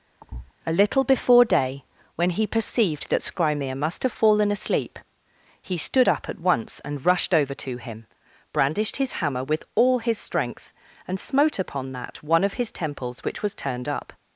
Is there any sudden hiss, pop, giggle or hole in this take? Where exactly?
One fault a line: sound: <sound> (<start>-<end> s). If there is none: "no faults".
sound: thud (0.2-0.5 s)